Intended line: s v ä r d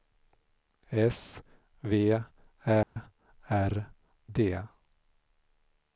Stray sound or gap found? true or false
true